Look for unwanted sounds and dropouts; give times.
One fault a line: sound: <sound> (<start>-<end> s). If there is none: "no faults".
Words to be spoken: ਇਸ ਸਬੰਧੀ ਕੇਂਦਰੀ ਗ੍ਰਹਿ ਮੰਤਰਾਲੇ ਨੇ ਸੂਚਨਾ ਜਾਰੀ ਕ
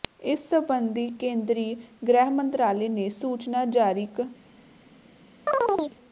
sound: chirp (5.5-6.0 s)